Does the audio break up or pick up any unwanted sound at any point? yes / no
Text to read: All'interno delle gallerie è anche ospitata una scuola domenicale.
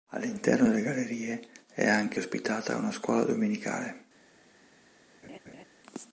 yes